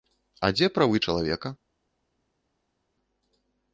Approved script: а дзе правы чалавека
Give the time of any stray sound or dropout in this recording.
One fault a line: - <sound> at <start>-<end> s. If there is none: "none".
none